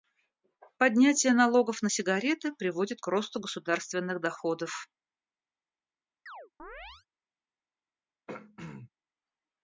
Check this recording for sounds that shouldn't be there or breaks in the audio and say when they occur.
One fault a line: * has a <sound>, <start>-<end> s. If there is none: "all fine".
* has a chirp, 6.3-7.1 s
* has a throat clearing, 8.3-8.9 s